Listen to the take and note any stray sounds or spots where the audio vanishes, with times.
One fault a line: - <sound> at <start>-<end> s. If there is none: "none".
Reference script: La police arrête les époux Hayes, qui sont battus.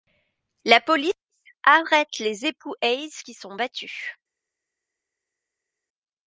none